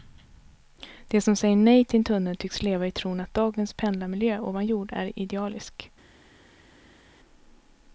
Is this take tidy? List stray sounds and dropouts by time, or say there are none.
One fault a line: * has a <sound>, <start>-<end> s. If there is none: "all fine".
all fine